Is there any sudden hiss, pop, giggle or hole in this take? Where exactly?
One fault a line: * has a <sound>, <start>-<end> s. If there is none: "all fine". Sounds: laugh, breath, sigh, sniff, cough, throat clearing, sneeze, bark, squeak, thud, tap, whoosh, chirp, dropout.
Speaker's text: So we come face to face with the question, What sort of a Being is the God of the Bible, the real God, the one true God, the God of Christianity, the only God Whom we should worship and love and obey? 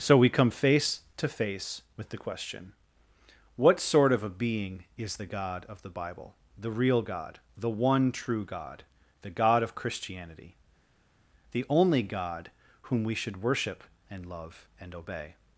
all fine